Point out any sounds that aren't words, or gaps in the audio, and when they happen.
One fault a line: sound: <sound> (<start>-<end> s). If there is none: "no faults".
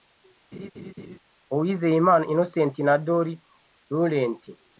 sound: laugh (0.5-1.2 s)